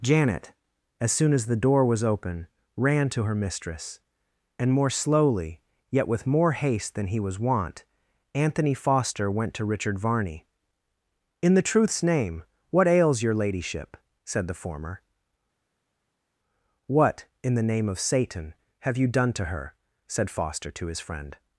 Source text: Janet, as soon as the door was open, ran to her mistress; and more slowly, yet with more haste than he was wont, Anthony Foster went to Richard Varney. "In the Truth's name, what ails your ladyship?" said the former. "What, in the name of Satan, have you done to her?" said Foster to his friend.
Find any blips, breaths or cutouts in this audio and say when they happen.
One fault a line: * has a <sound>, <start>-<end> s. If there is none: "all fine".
all fine